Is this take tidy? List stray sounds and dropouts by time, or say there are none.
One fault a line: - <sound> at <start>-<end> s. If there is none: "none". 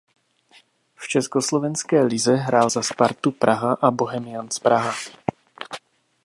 none